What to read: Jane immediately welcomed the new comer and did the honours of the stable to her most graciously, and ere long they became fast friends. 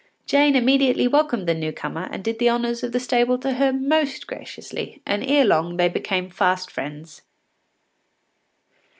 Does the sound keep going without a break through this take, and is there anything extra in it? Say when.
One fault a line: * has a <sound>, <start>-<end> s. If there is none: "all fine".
all fine